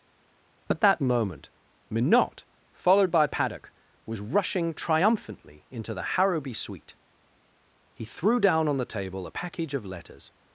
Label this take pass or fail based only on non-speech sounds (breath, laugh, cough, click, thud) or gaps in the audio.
pass